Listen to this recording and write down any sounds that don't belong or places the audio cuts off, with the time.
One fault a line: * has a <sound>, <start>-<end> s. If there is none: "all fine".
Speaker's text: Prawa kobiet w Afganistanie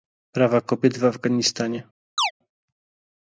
* has a chirp, 2.2-2.3 s